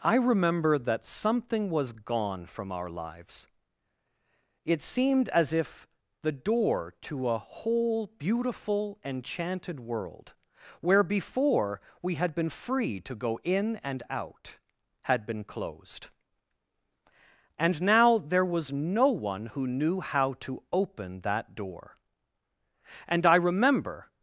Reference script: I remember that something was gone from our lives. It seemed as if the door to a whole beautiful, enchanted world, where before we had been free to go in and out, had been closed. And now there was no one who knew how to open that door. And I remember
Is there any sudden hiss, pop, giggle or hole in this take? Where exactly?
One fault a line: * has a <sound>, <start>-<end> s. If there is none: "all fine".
all fine